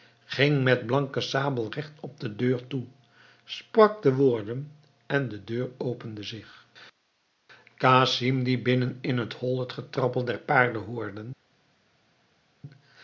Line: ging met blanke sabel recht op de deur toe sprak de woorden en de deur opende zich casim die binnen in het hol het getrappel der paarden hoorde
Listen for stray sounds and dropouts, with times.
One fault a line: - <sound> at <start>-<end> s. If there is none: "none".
none